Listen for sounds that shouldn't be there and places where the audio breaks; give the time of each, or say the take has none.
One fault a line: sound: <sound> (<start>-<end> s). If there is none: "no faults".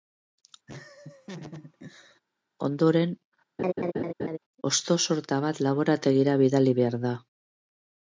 sound: laugh (0.7-2.2 s)
sound: laugh (3.6-4.4 s)